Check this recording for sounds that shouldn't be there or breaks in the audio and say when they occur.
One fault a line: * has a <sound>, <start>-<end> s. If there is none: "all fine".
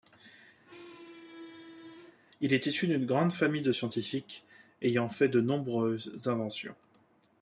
* has a squeak, 0.6-2.2 s